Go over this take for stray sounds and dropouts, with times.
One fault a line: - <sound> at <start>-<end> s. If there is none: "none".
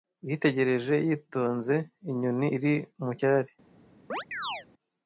- chirp at 4.1-4.7 s